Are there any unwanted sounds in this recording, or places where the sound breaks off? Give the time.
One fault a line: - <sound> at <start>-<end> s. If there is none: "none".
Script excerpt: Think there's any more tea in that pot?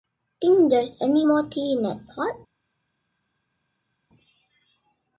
none